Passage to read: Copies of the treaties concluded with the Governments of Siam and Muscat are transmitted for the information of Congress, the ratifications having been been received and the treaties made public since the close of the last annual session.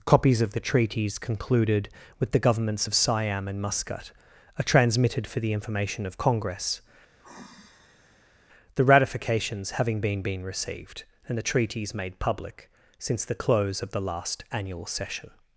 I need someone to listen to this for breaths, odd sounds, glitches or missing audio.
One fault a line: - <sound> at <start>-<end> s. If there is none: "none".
- sigh at 7.2-8.3 s